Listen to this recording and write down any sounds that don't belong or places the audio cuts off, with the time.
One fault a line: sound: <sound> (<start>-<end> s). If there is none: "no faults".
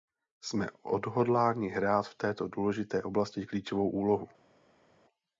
no faults